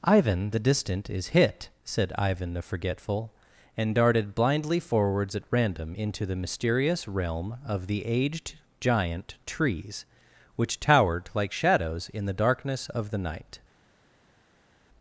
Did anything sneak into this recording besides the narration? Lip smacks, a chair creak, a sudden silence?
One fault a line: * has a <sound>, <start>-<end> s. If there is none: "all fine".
all fine